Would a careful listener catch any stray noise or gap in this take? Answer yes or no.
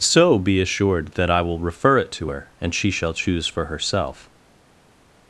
no